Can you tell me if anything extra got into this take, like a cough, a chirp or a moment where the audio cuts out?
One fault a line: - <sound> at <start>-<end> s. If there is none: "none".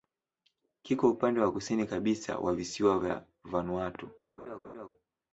- laugh at 4.4-4.9 s